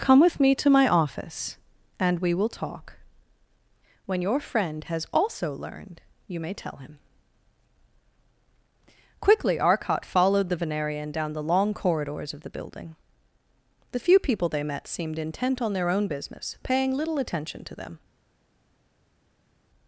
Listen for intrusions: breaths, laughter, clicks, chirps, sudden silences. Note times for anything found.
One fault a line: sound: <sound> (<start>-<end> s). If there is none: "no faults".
no faults